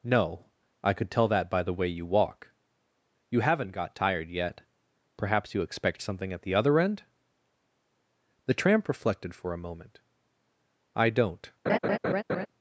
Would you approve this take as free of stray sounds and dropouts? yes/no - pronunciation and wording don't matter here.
no